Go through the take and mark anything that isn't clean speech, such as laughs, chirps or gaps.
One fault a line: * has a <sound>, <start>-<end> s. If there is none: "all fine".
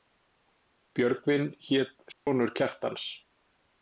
* has a dropout, 2.1-2.3 s